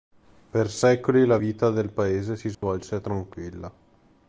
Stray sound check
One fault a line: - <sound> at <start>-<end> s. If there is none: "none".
- dropout at 2.5-2.6 s